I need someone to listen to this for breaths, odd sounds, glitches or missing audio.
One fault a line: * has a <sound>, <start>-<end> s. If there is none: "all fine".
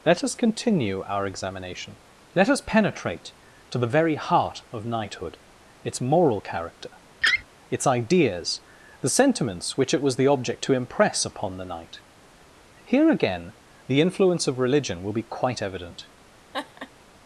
* has a laugh, 7.2-7.4 s
* has a laugh, 16.5-16.9 s